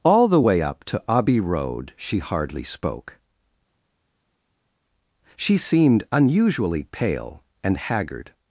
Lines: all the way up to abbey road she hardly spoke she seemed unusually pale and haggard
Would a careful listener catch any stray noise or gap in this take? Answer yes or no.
no